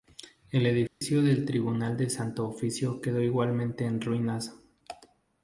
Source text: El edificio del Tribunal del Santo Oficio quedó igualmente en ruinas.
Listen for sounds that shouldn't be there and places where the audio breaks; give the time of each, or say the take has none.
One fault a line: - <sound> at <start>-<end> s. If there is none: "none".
- dropout at 0.9-1.0 s